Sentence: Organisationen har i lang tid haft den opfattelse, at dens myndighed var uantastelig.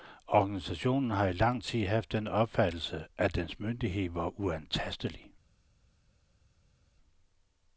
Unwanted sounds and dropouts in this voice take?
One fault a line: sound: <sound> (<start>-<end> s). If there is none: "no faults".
no faults